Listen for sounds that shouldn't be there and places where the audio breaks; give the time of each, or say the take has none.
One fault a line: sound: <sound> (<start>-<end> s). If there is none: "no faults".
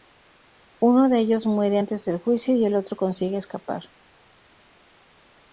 no faults